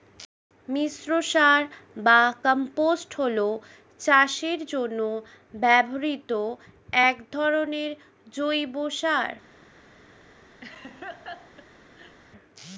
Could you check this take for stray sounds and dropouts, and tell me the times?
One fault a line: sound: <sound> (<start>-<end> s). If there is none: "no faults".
sound: laugh (10.6-12.2 s)